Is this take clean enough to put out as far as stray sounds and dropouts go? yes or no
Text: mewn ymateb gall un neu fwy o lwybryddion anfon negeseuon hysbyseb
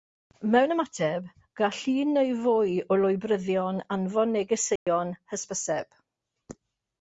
no